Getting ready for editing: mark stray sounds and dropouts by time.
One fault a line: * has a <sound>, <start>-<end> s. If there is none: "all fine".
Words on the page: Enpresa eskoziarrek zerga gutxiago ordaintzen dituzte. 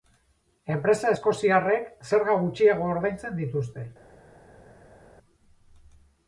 all fine